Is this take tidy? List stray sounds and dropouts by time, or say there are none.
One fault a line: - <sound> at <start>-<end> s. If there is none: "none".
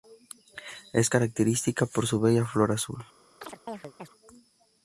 - chirp at 3.4-4.1 s